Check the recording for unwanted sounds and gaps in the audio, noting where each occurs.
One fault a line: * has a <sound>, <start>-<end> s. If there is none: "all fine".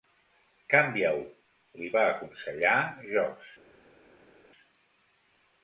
all fine